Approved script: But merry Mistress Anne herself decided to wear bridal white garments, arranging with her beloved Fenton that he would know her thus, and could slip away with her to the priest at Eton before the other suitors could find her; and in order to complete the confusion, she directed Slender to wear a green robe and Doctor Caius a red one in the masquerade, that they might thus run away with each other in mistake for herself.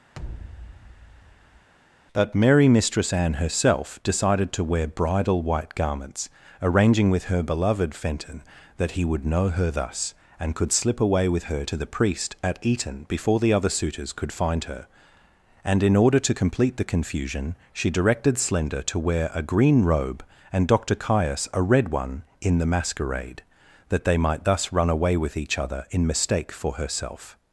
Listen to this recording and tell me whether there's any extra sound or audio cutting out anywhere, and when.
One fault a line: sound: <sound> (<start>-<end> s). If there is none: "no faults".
sound: thud (0.1-1.7 s)